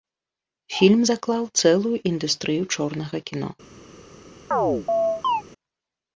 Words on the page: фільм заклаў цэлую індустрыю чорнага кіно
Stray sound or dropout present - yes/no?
yes